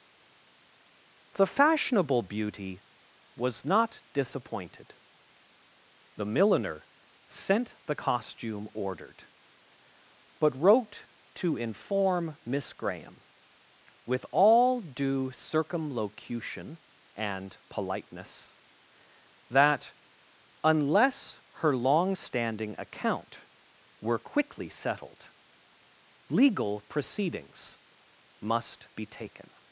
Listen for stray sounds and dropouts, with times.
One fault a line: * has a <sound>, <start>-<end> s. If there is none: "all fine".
all fine